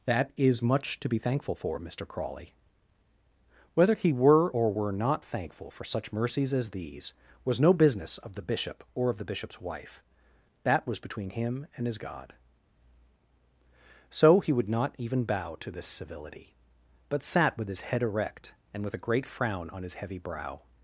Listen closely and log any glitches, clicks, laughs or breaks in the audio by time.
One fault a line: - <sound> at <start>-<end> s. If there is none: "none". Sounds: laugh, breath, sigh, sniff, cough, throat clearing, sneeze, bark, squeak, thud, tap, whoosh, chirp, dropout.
none